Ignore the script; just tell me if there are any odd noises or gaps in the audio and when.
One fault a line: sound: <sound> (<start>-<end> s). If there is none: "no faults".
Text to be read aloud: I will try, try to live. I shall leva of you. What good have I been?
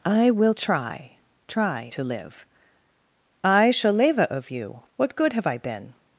no faults